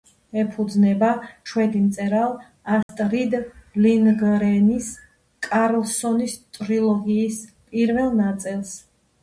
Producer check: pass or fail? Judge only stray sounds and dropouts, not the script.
fail